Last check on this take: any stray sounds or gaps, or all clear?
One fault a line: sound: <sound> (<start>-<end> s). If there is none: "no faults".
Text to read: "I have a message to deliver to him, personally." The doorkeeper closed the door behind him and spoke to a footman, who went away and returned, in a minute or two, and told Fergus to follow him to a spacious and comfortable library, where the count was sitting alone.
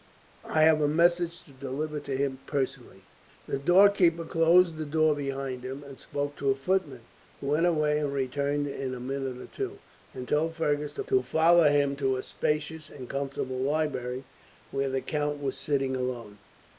no faults